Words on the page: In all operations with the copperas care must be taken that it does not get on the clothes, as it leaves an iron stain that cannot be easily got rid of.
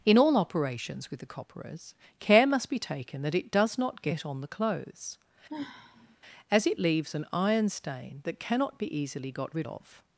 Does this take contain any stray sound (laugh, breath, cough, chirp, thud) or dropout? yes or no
yes